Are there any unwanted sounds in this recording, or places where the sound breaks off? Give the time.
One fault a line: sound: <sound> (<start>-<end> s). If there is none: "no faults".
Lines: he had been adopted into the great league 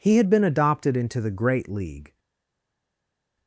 no faults